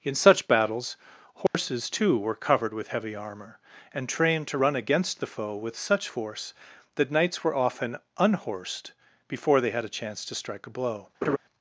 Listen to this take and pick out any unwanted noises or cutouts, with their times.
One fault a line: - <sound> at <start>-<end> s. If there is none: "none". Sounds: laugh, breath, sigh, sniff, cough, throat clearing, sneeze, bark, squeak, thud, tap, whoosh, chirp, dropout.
- dropout at 1.5-1.5 s
- laugh at 11.2-11.4 s